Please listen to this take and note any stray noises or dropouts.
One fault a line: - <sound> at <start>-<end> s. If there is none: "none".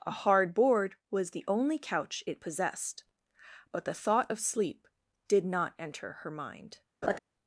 - laugh at 7.0-7.2 s